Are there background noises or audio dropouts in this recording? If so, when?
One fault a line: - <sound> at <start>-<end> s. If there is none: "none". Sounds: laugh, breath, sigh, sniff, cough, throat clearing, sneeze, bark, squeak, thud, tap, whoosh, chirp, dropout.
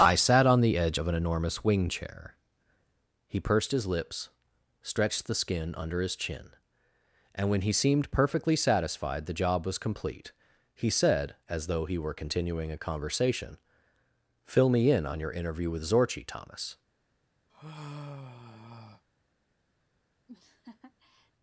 - sigh at 17.5-19.0 s
- laugh at 20.3-21.3 s